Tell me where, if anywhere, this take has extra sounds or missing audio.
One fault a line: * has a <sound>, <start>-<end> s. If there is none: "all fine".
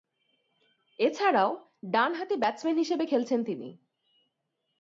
all fine